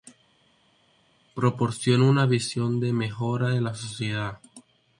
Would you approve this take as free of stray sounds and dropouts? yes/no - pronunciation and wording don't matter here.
yes